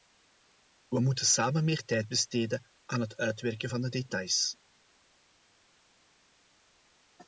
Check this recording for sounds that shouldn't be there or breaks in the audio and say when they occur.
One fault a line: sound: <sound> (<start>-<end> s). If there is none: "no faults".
no faults